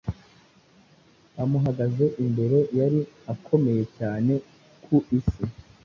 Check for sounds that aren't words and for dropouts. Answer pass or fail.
pass